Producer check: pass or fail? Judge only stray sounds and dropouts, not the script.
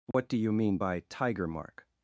fail